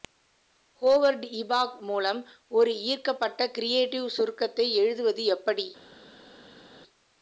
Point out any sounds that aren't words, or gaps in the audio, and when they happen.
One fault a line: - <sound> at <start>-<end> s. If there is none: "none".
none